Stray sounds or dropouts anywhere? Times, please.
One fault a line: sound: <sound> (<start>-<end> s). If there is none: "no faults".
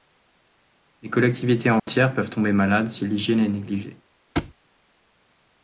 sound: dropout (1.8-1.9 s)
sound: thud (4.4-4.5 s)